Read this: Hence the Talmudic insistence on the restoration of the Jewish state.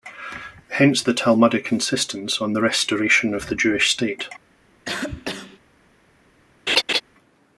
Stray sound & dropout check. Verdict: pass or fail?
fail